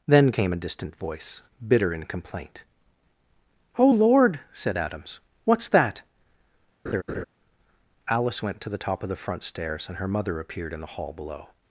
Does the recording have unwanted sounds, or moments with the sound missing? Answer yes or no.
yes